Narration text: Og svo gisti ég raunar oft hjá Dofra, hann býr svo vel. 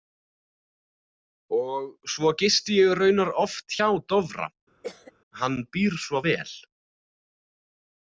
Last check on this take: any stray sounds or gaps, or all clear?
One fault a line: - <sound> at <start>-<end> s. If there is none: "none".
- cough at 4.8-5.1 s